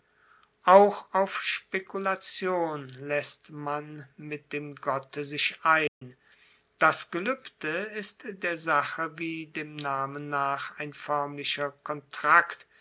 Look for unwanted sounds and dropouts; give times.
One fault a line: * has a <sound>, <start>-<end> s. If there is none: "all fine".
* has a dropout, 5.9-6.0 s